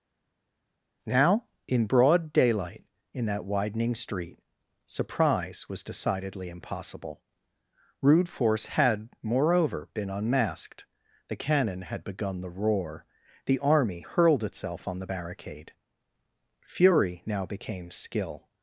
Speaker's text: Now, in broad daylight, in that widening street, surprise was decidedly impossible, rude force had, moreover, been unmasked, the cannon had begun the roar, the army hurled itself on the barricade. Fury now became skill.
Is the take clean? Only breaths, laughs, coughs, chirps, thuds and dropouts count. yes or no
yes